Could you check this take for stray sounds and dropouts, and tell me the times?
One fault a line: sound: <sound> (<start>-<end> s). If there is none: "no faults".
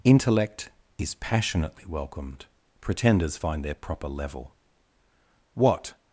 no faults